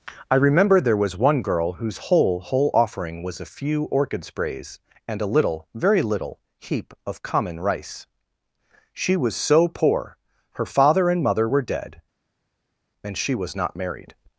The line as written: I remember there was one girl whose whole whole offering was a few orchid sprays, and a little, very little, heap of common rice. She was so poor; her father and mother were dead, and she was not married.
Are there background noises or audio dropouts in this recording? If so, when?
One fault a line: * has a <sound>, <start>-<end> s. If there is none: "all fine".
all fine